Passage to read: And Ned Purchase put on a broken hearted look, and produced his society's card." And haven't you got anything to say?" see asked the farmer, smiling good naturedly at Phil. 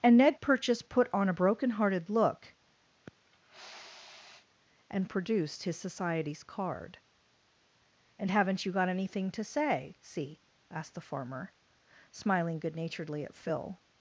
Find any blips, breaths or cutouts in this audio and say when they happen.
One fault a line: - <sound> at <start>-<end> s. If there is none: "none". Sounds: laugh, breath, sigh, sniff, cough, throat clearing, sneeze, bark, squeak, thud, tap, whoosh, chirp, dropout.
- sniff at 2.9-4.5 s